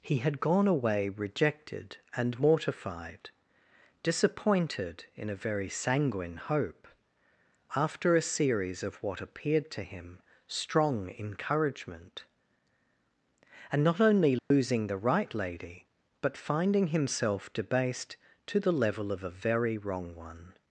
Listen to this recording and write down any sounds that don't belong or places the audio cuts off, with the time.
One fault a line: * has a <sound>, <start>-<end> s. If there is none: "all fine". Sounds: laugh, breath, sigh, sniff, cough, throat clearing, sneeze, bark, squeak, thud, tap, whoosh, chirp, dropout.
* has a dropout, 14.4-14.5 s